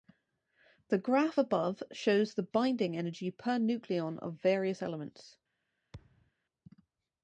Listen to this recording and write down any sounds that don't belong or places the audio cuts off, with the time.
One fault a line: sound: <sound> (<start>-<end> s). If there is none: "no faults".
sound: thud (5.9-6.3 s)